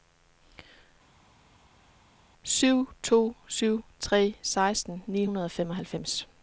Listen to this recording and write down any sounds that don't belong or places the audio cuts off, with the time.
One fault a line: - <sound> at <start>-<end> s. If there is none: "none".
none